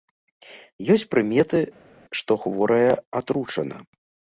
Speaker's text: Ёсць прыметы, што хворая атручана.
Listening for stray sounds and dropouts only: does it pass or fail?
pass